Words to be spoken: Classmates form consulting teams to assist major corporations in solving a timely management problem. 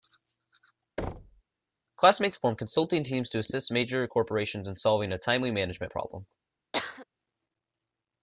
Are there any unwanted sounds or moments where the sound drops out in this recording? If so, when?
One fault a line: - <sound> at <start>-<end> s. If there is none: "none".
- thud at 1.0-1.4 s
- cough at 6.7-7.1 s